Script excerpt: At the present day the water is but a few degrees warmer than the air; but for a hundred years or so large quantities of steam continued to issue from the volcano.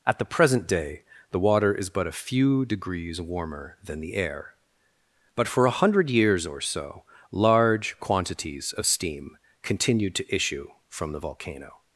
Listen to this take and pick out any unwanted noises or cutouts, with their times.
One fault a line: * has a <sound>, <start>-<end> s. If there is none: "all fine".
all fine